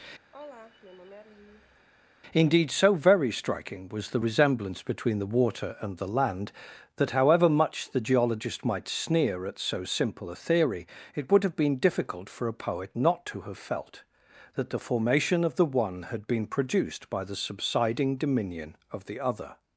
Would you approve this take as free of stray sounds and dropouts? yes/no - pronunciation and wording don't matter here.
no